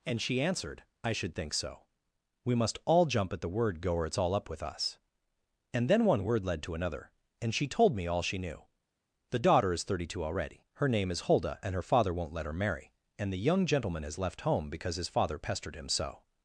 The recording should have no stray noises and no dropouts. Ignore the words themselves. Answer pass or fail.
pass